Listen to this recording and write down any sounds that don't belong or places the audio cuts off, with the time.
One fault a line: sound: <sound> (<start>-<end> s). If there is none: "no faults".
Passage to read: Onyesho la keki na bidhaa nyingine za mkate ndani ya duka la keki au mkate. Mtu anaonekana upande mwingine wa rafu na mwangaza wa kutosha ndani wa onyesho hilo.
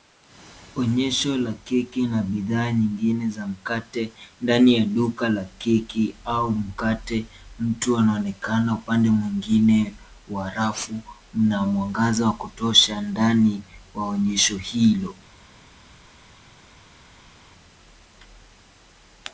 no faults